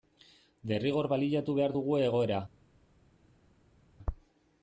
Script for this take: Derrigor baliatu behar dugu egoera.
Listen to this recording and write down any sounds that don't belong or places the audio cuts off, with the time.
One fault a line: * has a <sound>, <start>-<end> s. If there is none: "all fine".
all fine